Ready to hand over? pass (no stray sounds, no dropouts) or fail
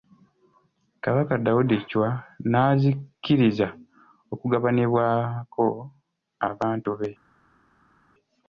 pass